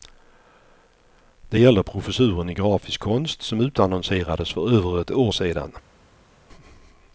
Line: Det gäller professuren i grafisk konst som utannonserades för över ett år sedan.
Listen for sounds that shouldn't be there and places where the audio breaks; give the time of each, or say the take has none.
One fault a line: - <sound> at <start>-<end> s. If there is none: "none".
none